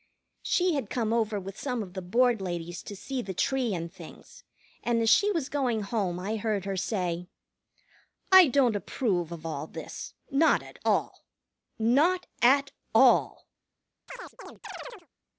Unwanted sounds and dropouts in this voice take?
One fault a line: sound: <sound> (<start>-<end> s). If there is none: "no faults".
sound: chirp (14.1-15.1 s)